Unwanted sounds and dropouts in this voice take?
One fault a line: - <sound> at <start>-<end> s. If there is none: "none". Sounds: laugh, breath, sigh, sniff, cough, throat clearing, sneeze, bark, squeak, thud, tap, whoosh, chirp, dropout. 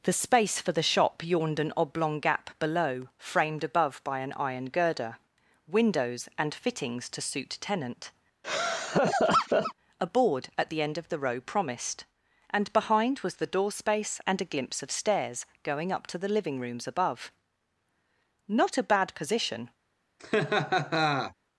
- laugh at 8.4-9.7 s
- laugh at 20.2-21.3 s